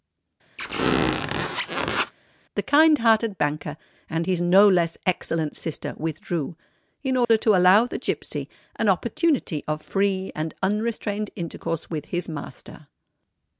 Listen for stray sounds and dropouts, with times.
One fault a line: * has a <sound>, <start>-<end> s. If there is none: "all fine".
* has a squeak, 0.6-2.1 s
* has a dropout, 7.2-7.3 s